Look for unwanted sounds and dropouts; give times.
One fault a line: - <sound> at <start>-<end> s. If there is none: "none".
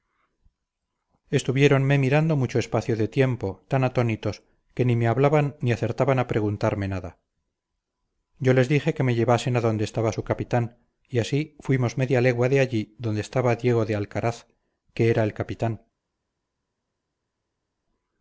none